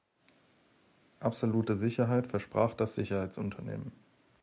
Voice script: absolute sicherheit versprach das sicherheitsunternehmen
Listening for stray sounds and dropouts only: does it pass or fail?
pass